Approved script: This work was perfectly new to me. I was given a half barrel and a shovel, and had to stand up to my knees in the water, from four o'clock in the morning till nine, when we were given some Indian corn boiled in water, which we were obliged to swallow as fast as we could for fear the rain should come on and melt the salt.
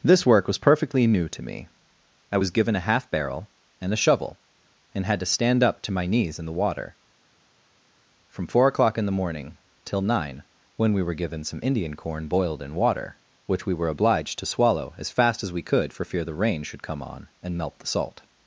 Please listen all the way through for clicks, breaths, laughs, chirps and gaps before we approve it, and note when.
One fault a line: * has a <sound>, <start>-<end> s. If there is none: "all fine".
all fine